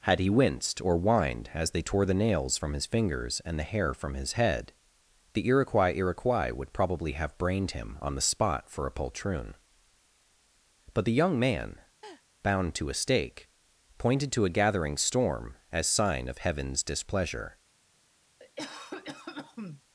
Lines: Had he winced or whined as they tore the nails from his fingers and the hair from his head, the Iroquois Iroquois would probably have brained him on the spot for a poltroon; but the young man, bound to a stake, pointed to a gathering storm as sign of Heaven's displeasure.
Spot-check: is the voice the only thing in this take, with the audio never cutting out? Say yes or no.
no